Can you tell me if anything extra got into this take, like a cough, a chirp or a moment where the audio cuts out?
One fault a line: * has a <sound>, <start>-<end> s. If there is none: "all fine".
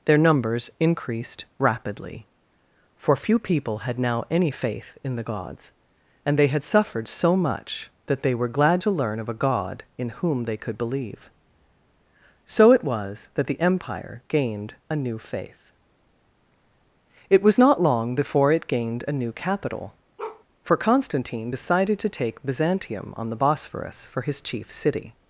* has a bark, 20.2-20.4 s